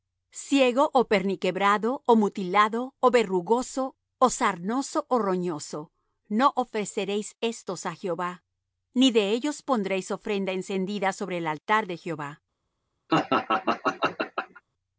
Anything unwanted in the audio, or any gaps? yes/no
yes